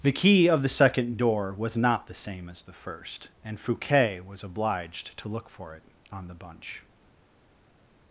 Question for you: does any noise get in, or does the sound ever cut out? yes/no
no